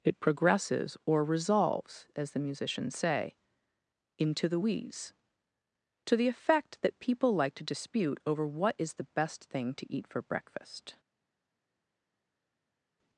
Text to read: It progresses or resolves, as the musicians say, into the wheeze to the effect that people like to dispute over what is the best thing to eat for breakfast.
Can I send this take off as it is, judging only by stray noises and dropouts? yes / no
yes